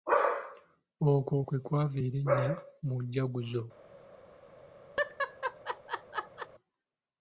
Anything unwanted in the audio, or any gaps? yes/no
yes